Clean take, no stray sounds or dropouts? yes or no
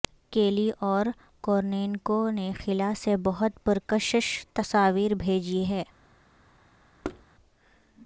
no